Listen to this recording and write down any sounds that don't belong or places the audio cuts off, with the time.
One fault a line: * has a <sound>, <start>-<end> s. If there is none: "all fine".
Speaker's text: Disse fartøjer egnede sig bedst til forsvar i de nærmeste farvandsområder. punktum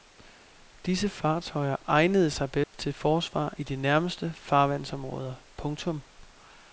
* has a dropout, 2.6-2.7 s